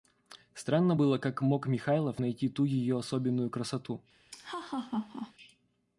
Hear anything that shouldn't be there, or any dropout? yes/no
yes